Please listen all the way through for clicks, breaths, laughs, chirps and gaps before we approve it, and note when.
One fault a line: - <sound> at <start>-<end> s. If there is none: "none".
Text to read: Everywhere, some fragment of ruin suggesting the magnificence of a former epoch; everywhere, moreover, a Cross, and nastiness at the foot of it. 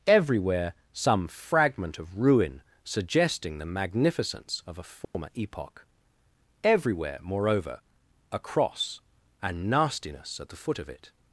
- dropout at 5.0-5.1 s